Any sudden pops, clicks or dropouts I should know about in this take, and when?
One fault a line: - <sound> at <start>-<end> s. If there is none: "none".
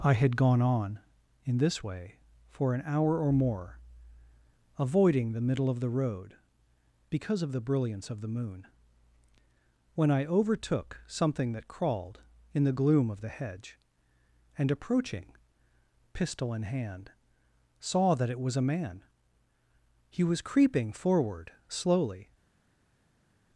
none